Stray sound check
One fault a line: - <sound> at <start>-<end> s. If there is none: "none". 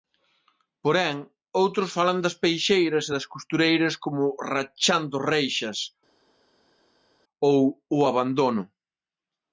none